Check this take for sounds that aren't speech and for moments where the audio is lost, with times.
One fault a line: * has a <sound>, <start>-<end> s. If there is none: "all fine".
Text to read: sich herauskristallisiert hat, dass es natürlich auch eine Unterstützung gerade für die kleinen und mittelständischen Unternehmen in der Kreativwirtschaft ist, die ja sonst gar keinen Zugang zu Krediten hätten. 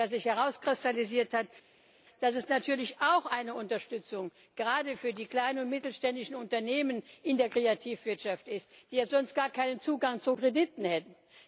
all fine